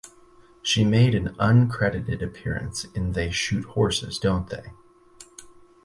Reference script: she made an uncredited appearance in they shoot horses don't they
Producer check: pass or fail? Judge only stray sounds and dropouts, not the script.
pass